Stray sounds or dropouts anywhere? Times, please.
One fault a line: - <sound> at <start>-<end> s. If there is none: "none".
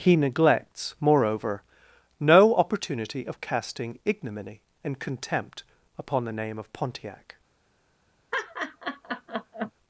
- laugh at 8.3-9.7 s